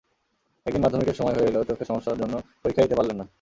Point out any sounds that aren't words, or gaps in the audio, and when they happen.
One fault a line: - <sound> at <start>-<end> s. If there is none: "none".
none